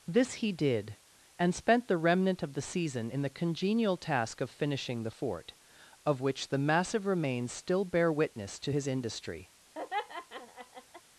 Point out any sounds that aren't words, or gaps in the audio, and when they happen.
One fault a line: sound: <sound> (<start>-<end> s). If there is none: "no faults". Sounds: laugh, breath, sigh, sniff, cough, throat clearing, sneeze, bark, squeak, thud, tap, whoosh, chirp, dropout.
sound: laugh (9.7-11.0 s)